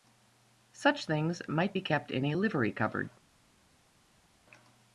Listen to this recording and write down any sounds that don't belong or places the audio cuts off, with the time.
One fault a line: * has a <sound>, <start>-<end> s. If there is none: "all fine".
all fine